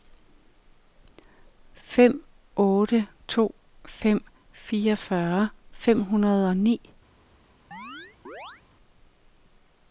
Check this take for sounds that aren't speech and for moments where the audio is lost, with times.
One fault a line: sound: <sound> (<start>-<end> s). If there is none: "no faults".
sound: chirp (7.7-8.6 s)